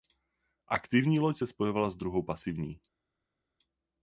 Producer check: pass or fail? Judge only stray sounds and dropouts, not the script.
pass